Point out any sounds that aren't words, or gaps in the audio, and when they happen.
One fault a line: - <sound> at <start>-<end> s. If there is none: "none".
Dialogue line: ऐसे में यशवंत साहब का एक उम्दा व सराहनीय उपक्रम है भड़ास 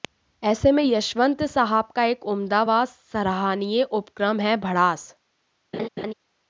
- laugh at 5.7-6.1 s